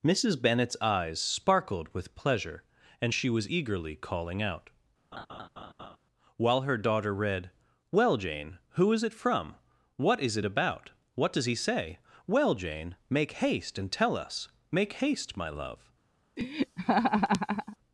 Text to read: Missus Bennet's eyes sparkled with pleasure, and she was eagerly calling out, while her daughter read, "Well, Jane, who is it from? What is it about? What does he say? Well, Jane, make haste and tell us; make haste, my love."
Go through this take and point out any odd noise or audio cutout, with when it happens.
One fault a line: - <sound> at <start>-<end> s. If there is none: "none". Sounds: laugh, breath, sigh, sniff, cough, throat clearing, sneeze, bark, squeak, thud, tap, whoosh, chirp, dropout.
- laugh at 5.1-6.0 s
- laugh at 16.4-17.8 s